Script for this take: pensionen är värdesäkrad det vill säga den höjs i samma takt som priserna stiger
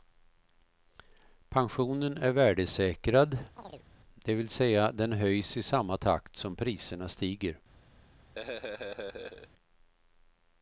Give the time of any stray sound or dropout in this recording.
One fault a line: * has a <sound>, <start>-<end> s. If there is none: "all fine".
* has a chirp, 3.6-3.9 s
* has a laugh, 8.4-9.5 s